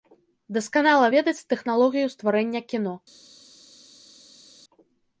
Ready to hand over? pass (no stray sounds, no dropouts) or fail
pass